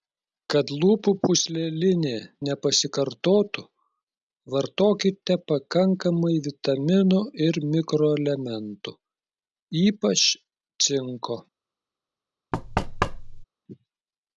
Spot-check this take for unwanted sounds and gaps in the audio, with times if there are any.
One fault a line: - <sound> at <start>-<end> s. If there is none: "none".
- thud at 12.5-13.4 s